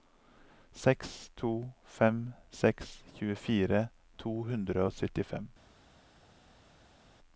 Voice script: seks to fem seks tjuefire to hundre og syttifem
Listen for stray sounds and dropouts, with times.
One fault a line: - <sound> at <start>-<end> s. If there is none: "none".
none